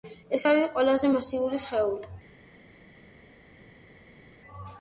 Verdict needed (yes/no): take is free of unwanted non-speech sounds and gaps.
yes